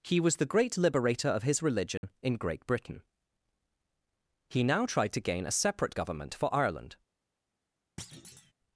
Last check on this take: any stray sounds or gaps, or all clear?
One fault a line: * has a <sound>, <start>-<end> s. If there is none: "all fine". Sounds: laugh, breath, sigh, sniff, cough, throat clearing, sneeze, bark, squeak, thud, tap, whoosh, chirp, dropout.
* has a dropout, 2.0-2.0 s
* has a thud, 8.0-8.5 s